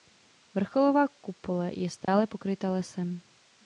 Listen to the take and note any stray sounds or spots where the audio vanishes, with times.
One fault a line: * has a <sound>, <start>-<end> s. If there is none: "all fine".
* has a dropout, 2.0-2.1 s